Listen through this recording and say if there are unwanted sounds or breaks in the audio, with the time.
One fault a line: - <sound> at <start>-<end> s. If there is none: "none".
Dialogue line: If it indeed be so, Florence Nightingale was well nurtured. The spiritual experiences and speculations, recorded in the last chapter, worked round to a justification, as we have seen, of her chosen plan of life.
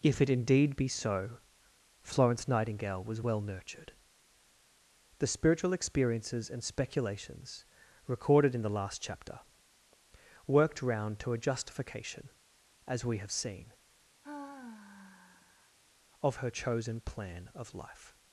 - sigh at 14.2-15.8 s